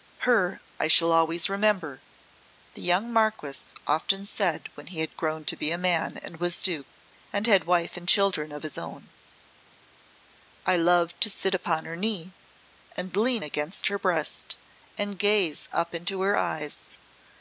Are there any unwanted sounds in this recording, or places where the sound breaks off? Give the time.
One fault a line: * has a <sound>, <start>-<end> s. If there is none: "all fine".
all fine